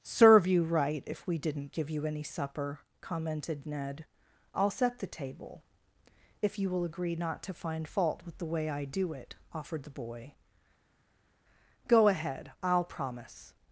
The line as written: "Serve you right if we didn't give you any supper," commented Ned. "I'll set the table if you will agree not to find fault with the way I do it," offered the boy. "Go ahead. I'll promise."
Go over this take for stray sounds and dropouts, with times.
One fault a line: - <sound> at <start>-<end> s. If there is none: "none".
none